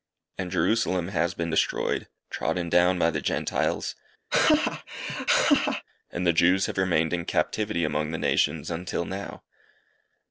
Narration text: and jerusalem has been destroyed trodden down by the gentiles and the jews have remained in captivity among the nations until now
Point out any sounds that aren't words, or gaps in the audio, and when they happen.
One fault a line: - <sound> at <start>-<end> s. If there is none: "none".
- laugh at 4.3-5.8 s